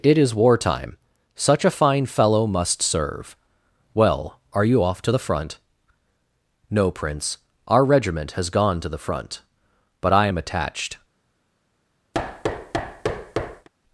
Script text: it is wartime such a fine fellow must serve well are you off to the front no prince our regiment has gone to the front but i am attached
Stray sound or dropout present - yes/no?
yes